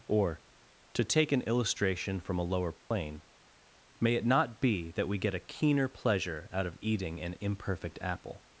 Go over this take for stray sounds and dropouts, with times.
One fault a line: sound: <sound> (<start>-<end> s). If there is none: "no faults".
sound: dropout (2.8-2.9 s)